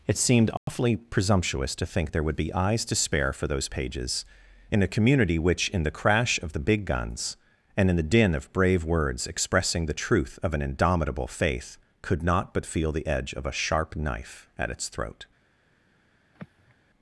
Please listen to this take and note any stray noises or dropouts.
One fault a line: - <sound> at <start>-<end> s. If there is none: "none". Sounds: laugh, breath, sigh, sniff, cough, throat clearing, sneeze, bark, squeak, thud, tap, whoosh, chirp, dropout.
- dropout at 0.6-0.7 s
- sigh at 16.3-16.8 s